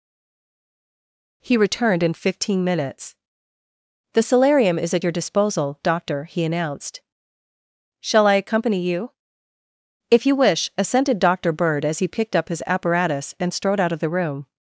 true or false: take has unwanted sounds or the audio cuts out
false